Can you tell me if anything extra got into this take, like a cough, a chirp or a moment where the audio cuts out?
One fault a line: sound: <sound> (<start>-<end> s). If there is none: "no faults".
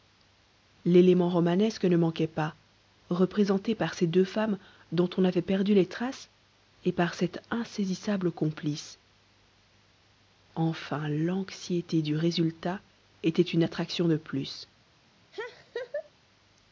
sound: laugh (15.3-16.1 s)